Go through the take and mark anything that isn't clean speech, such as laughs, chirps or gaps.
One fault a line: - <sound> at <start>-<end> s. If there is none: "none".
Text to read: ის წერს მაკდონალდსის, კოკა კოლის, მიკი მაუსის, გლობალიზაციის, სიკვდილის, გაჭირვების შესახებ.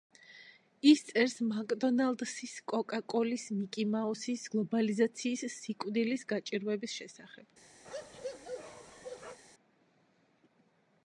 - bark at 7.8-9.4 s